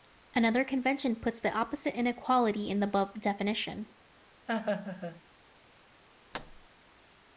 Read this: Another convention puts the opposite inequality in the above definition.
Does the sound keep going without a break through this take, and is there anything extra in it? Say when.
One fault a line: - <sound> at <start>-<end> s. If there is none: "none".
- laugh at 4.5-5.2 s
- thud at 6.3-6.7 s